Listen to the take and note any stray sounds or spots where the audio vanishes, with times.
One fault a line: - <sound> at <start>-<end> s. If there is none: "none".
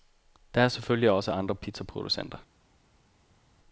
none